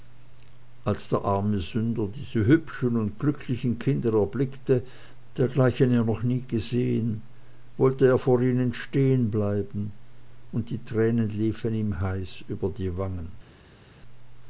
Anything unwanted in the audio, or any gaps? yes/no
no